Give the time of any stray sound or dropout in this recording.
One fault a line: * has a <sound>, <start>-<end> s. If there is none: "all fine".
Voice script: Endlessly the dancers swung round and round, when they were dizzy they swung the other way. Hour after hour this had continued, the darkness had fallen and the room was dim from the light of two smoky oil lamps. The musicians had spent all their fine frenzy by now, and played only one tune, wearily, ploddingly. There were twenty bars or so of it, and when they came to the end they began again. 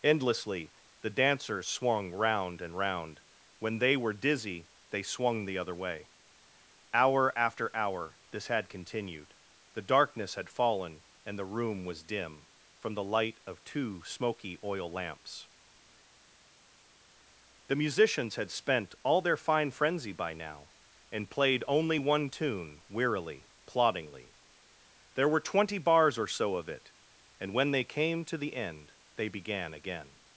all fine